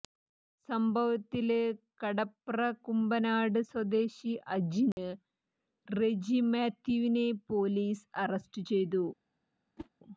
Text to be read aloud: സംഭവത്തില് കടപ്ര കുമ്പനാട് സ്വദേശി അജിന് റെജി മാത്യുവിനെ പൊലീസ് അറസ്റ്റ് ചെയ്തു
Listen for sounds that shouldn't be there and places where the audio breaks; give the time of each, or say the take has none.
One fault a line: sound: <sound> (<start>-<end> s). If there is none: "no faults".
sound: dropout (4.9-5.0 s)
sound: whoosh (9.8-9.9 s)